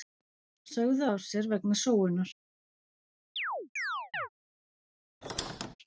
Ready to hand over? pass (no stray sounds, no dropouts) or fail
fail